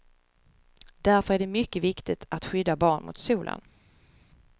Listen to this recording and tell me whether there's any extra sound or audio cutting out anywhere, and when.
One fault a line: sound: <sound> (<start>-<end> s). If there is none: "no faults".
no faults